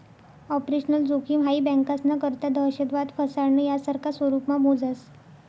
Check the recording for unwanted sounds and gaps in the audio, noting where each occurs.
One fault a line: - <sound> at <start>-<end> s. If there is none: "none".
none